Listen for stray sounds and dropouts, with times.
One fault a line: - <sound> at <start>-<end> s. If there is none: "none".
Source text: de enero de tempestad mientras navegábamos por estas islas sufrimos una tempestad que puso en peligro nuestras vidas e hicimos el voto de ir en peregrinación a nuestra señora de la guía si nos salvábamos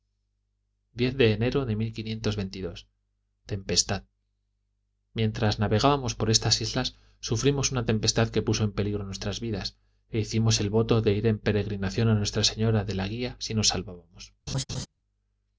- laugh at 14.5-14.9 s